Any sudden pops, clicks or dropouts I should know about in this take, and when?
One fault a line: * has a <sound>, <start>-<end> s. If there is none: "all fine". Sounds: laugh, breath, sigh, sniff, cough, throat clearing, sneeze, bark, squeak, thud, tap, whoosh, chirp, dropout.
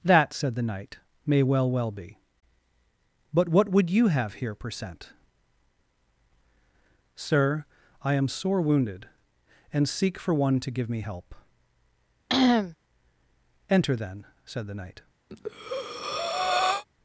* has a cough, 12.3-12.8 s
* has a breath, 15.3-16.8 s